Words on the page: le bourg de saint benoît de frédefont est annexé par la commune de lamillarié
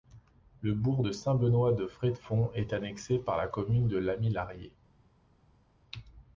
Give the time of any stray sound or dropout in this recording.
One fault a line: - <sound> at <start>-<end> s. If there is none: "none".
none